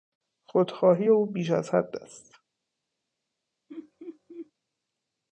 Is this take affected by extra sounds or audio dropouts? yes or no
yes